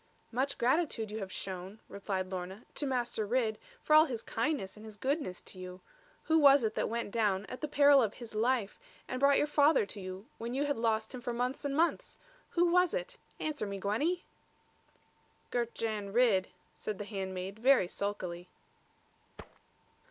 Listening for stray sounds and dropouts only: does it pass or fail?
fail